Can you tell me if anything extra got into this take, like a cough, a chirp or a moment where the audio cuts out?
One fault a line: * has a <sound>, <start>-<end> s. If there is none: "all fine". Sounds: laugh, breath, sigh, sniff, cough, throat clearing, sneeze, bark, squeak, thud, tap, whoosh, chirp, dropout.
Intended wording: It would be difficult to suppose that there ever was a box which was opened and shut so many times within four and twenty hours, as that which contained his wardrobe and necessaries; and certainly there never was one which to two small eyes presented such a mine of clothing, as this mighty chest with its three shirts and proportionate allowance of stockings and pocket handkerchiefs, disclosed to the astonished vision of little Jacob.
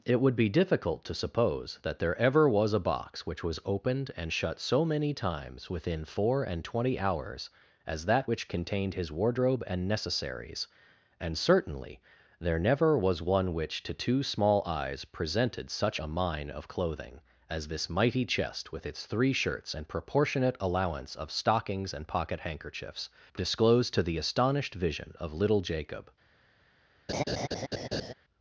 * has a laugh, 27.1-28.1 s